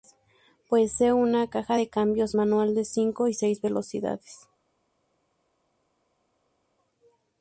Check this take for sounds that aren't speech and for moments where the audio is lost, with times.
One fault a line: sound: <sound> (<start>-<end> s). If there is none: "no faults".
no faults